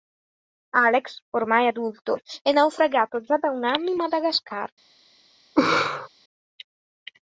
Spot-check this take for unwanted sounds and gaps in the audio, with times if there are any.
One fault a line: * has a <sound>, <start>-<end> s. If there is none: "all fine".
* has a laugh, 5.6-6.1 s